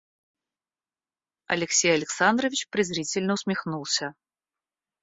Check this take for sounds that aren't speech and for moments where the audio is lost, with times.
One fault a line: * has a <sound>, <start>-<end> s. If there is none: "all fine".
all fine